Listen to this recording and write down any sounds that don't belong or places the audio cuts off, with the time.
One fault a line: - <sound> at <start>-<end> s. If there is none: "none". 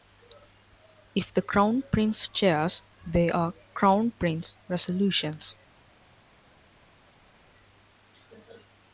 none